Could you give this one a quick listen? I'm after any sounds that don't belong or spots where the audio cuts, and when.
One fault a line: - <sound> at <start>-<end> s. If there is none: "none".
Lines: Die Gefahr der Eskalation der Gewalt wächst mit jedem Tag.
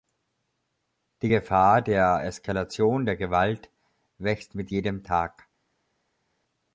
none